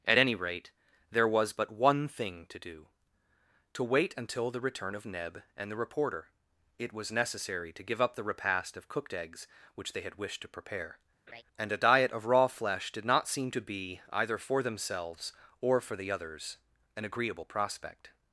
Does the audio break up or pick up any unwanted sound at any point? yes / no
yes